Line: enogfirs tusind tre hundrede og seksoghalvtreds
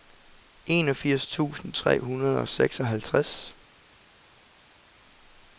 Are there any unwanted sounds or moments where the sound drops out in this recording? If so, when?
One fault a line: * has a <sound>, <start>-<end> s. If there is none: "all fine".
all fine